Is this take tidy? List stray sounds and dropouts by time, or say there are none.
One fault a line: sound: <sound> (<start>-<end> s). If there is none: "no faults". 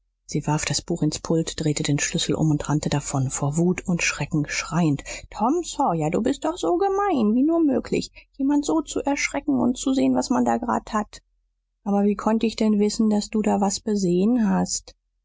no faults